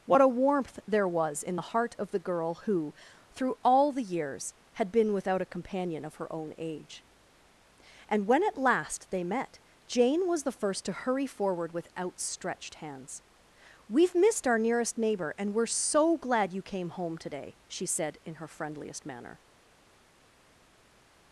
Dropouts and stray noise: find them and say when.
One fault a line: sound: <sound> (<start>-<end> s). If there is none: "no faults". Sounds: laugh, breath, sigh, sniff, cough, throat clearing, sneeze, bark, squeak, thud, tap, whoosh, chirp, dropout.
no faults